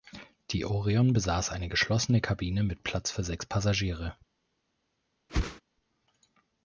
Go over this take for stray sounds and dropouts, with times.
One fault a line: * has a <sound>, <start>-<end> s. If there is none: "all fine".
* has a whoosh, 5.3-5.6 s